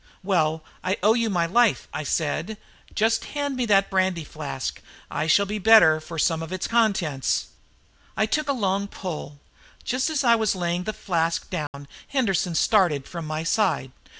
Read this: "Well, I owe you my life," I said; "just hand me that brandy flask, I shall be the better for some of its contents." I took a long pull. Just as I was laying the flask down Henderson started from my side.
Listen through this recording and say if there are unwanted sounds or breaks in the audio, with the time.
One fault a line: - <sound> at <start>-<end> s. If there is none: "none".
- dropout at 11.7-11.7 s